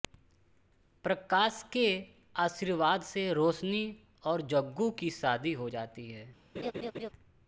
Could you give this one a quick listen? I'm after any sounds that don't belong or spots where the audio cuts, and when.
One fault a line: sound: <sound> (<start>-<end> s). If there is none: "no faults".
sound: laugh (6.5-7.1 s)